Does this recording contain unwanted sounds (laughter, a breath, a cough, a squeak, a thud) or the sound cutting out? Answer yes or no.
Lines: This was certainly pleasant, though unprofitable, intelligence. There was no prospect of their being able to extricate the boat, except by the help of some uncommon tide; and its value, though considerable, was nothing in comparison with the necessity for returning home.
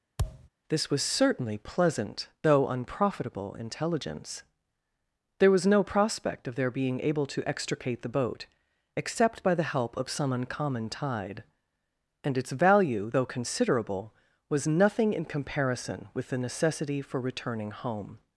yes